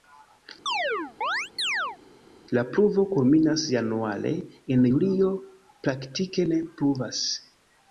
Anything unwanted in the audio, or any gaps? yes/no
yes